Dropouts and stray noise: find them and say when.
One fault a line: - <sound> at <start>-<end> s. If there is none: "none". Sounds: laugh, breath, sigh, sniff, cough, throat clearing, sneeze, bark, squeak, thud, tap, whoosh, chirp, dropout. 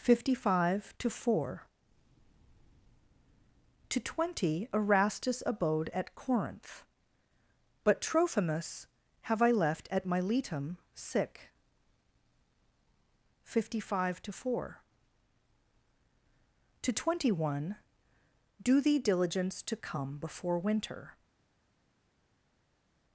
none